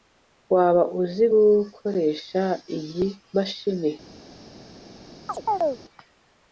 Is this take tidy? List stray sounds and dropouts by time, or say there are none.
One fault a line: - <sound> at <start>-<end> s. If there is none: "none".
- chirp at 5.3-5.8 s